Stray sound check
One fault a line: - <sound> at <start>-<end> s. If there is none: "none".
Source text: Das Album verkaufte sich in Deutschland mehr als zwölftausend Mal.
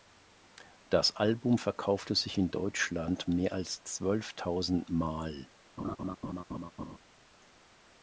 - laugh at 5.8-7.0 s